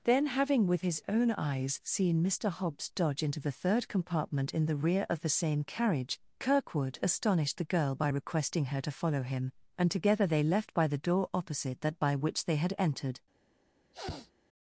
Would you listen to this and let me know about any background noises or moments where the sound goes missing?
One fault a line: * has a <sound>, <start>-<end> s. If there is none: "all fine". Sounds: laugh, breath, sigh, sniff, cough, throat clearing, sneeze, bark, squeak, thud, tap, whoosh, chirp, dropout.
* has a sniff, 13.9-14.3 s